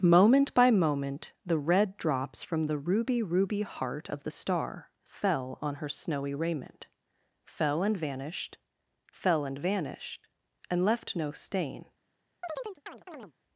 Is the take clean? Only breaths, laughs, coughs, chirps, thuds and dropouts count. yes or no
no